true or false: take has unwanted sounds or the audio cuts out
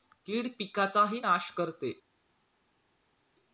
false